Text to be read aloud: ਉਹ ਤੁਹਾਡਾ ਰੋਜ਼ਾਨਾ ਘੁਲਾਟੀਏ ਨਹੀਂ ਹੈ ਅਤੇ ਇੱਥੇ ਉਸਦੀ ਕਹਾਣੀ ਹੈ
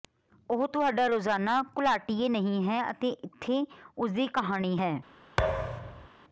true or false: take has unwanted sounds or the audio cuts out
true